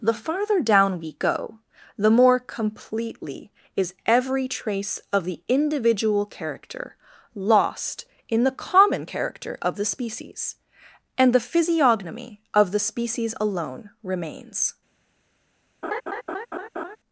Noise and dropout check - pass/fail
fail